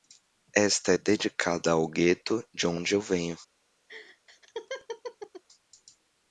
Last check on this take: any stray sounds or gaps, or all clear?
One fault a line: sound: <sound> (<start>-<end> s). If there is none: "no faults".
sound: laugh (3.9-5.4 s)